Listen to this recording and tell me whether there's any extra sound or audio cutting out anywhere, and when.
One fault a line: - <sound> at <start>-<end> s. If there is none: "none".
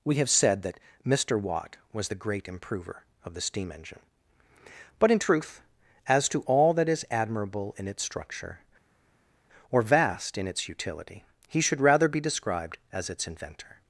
none